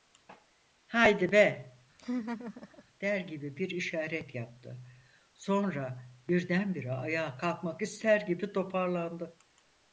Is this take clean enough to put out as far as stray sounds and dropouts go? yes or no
no